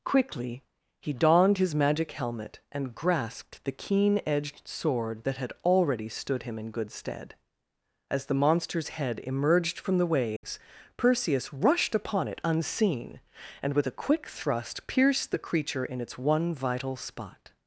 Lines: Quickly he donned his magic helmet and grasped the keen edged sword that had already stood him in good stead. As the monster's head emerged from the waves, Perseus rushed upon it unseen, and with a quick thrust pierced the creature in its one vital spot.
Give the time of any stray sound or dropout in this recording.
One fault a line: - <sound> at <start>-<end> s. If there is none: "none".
- dropout at 10.4-10.4 s